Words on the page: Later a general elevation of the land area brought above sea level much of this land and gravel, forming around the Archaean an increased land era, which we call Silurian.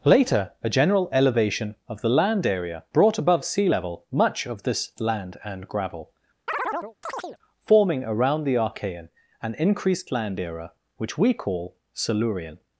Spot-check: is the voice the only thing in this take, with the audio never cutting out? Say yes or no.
no